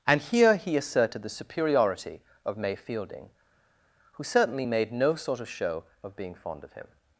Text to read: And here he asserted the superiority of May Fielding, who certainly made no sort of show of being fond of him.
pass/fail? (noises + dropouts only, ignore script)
pass